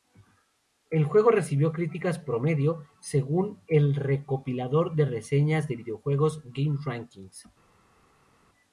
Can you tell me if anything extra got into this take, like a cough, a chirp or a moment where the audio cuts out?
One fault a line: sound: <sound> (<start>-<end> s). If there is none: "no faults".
no faults